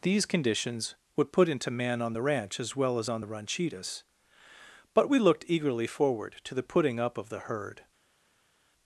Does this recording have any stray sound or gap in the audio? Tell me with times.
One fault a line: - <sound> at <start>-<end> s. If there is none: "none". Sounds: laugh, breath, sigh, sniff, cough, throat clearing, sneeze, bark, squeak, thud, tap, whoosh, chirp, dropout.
none